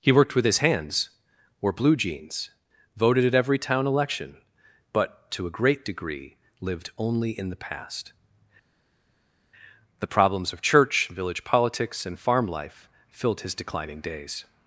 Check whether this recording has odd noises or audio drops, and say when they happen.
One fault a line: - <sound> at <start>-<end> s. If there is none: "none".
none